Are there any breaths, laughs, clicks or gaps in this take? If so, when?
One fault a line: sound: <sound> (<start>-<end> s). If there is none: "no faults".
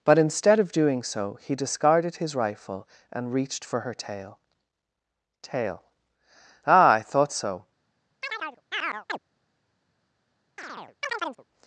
sound: chirp (8.2-9.2 s)
sound: chirp (10.6-11.4 s)